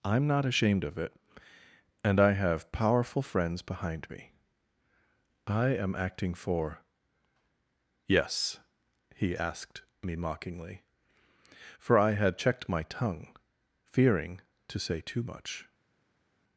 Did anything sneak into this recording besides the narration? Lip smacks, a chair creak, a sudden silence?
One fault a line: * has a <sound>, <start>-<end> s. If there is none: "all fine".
all fine